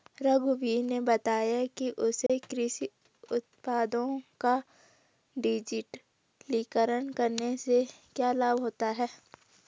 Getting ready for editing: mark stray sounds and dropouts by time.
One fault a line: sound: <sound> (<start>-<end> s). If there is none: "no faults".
sound: dropout (2.3-2.3 s)